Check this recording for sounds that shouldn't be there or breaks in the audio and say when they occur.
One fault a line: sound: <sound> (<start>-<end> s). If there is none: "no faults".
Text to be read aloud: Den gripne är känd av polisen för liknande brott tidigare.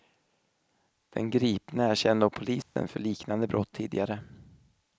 sound: dropout (2.6-2.8 s)